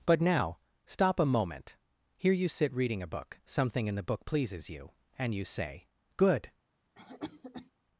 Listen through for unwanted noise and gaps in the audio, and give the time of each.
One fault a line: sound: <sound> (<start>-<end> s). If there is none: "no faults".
sound: cough (7.0-7.7 s)